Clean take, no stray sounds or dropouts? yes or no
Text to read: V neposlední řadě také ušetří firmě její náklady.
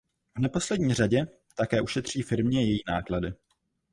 yes